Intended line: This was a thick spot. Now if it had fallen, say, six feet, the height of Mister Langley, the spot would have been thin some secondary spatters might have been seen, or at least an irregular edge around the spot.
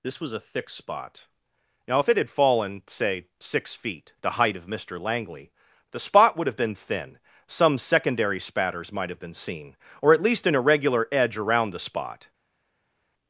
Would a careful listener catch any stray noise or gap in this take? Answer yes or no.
no